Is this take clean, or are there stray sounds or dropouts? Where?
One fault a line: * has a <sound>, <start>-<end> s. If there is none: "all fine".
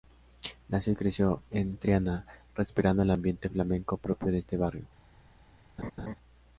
* has a laugh, 5.8-6.2 s